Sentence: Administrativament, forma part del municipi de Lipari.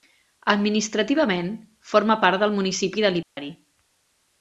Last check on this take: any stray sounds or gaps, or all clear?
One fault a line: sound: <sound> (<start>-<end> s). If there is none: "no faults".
sound: dropout (3.2-3.4 s)